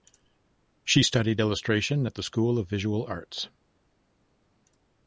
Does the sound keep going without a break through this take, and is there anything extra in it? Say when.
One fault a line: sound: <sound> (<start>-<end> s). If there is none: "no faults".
no faults